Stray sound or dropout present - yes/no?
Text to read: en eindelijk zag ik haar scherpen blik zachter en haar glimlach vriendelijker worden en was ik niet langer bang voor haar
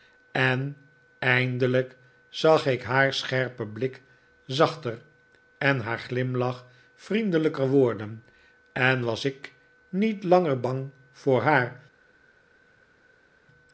no